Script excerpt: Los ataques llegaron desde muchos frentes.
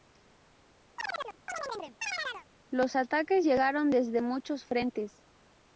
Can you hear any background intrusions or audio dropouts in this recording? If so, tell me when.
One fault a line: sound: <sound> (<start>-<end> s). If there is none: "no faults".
sound: chirp (1.0-2.5 s)